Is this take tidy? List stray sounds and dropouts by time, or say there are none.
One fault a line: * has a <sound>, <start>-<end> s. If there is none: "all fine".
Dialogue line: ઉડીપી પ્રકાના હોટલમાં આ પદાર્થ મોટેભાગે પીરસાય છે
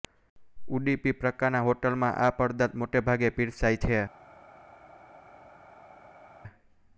all fine